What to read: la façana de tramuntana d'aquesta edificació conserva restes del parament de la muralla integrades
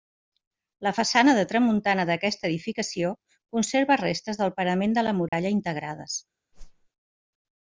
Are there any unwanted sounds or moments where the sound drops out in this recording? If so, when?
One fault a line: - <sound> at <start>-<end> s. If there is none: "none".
- dropout at 5.3-5.3 s
- whoosh at 6.5-6.9 s